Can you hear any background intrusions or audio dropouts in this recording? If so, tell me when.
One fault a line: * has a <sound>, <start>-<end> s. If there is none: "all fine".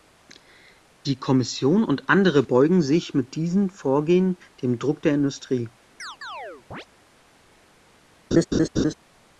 * has a chirp, 6.0-6.9 s
* has a laugh, 8.3-8.9 s